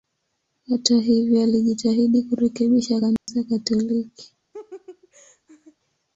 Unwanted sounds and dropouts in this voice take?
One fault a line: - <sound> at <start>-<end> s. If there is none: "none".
- dropout at 3.2-3.3 s
- laugh at 4.5-5.8 s